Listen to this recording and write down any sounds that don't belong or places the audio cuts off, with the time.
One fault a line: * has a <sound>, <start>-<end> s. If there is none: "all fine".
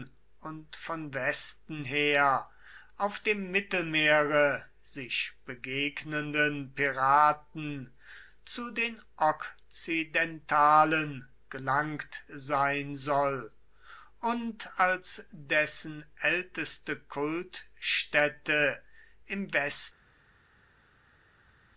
all fine